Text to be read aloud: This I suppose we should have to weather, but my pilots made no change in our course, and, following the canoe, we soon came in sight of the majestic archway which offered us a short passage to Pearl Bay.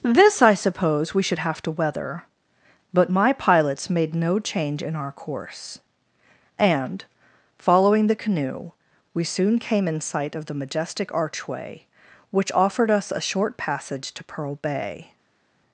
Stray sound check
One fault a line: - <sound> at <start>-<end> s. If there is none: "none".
none